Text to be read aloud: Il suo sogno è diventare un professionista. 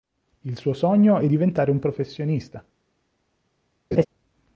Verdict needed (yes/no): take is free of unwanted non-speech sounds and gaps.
no